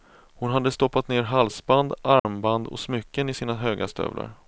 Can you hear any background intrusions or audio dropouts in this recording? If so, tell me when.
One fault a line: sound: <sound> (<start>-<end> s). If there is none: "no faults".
sound: dropout (2.2-2.2 s)